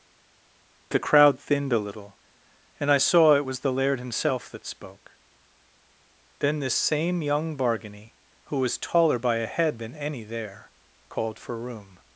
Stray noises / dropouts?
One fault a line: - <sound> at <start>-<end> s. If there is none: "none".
none